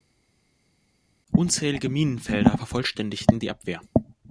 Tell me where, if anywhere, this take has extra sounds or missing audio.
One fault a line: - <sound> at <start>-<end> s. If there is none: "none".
none